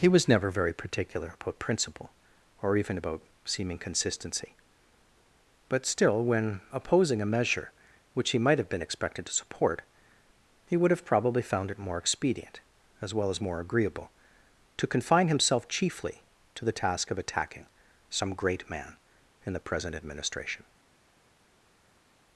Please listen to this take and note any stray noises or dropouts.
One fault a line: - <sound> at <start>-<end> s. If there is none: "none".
none